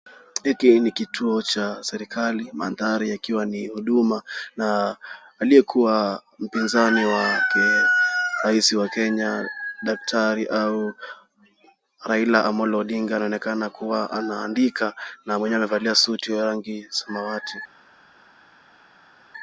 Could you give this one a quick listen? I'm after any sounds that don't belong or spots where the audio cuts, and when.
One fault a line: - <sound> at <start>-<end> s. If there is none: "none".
none